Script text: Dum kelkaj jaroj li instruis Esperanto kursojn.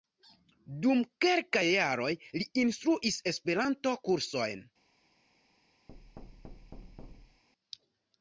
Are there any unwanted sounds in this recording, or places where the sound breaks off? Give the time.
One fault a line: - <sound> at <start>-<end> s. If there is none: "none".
- thud at 5.9-7.4 s